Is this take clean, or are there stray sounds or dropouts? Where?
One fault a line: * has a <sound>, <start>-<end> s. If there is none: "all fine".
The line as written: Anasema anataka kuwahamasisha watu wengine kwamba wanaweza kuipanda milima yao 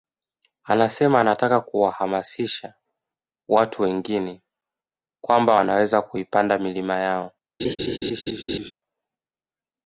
* has a laugh, 7.6-8.7 s